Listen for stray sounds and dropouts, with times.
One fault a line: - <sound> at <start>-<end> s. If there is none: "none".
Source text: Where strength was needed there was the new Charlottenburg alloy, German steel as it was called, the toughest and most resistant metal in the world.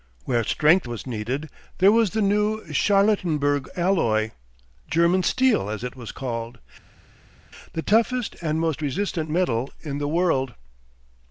none